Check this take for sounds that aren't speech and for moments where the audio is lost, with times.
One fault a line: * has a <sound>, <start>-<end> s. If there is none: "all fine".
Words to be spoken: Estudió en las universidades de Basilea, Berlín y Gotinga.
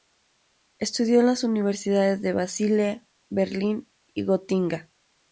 all fine